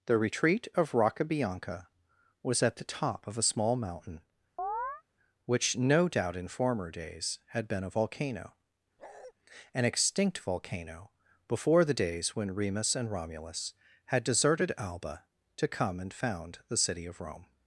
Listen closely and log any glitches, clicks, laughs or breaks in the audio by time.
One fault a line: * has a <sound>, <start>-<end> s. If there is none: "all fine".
* has a chirp, 4.6-5.0 s
* has a bark, 9.0-9.3 s